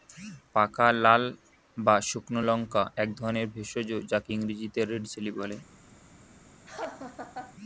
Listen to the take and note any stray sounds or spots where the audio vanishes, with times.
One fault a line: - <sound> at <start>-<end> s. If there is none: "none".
- laugh at 6.7-7.5 s